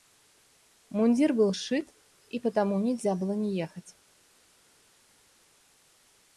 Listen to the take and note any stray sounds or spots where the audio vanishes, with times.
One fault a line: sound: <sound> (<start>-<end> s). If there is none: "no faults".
no faults